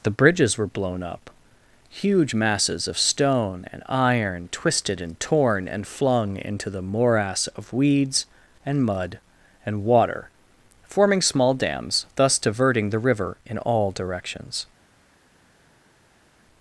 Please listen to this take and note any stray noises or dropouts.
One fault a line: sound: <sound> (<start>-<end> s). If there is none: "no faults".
no faults